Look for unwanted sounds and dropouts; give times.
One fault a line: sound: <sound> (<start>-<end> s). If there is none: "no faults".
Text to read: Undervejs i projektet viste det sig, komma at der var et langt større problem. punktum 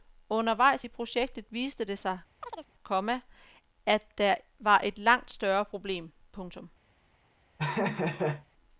sound: chirp (2.4-2.7 s)
sound: laugh (7.6-8.5 s)